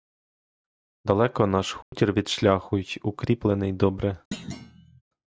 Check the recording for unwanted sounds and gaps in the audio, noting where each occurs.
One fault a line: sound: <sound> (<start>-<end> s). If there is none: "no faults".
sound: dropout (1.8-1.9 s)
sound: thud (4.3-5.0 s)